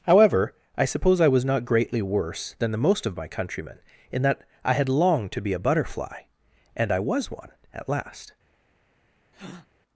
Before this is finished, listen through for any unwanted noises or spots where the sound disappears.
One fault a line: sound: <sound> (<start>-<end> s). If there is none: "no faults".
sound: breath (9.3-9.7 s)